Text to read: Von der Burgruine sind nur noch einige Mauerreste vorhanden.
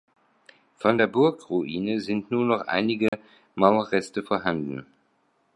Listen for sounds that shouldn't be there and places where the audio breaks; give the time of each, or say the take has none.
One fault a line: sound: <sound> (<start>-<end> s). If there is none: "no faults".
sound: dropout (3.1-3.1 s)